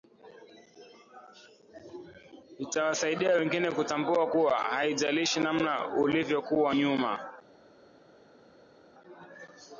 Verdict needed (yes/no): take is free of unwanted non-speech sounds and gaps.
yes